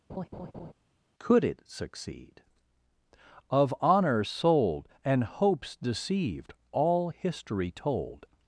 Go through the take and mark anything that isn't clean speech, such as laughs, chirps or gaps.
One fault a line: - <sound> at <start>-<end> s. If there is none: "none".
- laugh at 0.1-0.7 s